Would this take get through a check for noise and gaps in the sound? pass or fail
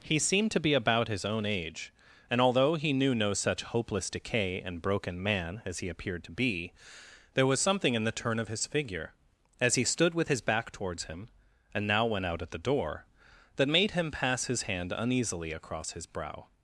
pass